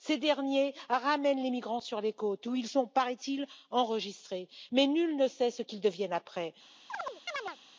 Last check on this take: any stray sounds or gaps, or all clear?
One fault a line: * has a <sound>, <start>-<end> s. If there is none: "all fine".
* has a chirp, 6.9-7.6 s